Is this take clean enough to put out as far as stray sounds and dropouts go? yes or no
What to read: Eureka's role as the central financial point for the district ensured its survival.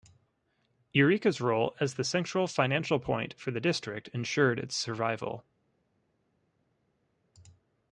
yes